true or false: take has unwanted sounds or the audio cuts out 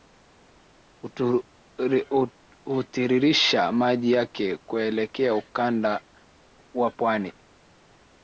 false